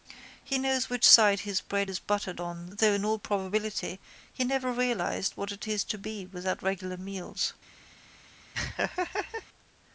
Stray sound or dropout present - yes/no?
yes